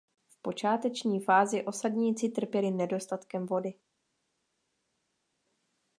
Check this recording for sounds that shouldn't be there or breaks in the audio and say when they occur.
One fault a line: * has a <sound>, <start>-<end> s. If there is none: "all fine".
all fine